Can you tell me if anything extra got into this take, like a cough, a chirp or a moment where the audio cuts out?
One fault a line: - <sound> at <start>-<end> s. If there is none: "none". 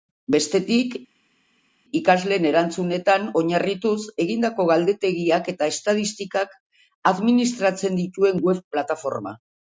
none